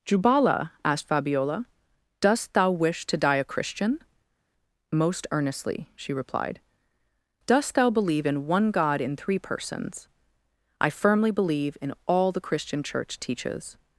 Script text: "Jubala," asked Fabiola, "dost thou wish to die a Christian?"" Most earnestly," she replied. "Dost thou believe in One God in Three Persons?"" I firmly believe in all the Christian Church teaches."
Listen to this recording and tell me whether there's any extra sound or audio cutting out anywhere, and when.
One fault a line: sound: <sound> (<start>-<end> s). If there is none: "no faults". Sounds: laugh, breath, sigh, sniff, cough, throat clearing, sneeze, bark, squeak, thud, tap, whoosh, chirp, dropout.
no faults